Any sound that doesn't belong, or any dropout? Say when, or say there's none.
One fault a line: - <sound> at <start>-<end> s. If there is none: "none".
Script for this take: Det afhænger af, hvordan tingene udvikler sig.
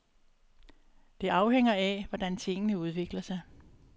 none